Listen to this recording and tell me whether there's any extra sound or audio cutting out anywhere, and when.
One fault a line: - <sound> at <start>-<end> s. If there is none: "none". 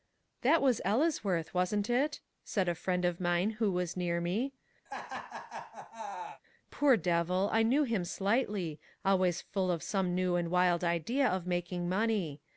- laugh at 4.9-6.4 s